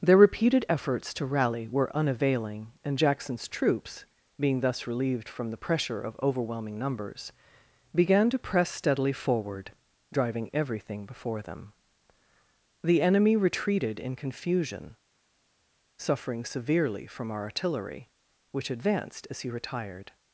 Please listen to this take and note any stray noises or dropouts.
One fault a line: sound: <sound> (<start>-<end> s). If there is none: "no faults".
no faults